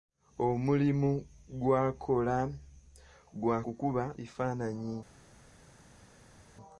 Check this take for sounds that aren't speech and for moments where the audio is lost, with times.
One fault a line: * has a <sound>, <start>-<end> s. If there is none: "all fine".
all fine